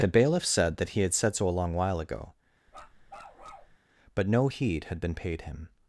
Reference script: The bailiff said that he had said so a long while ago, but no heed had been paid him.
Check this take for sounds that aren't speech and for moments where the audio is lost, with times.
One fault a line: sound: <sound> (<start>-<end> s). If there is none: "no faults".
sound: bark (2.7-3.8 s)